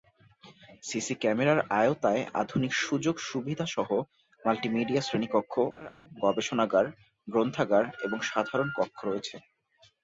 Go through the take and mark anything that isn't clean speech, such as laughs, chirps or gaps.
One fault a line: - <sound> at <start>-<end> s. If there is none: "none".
- laugh at 5.8-5.9 s